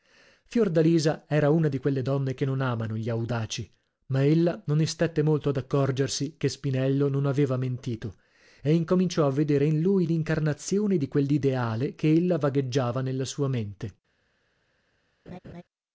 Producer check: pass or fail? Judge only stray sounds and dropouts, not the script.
fail